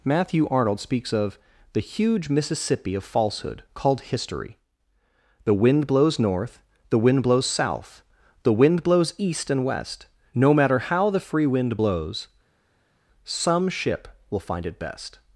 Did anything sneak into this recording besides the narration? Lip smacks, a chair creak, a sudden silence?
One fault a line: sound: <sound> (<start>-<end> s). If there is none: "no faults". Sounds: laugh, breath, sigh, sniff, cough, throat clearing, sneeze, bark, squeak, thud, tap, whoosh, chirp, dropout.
no faults